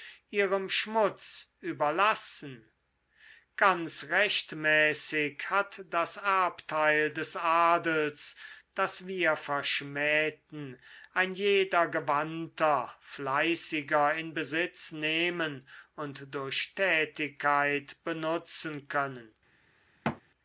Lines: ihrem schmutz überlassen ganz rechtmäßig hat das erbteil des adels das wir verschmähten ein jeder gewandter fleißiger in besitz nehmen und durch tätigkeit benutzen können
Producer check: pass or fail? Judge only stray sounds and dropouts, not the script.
fail